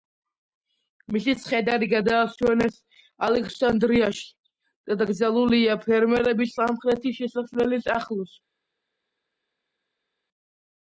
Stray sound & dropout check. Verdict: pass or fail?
pass